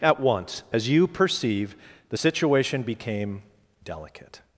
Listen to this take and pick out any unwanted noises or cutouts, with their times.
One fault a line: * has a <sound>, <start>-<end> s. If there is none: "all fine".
all fine